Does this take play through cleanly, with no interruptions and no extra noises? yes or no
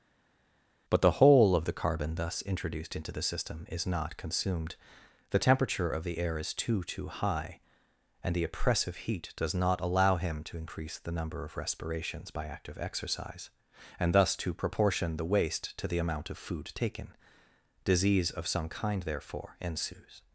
yes